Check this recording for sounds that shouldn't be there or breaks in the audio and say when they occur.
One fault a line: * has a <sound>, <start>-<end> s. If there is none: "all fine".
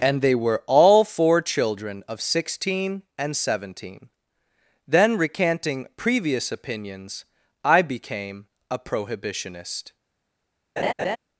* has a laugh, 10.8-11.2 s